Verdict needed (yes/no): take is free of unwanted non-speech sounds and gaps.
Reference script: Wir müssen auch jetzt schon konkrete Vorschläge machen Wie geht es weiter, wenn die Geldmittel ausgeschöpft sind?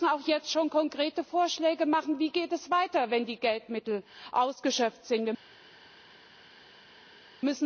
yes